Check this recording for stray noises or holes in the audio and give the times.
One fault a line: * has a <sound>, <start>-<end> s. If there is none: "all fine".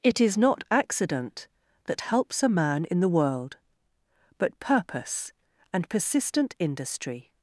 all fine